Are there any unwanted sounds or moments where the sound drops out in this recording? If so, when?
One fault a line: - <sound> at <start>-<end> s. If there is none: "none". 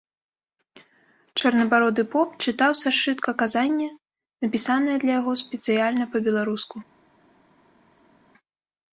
none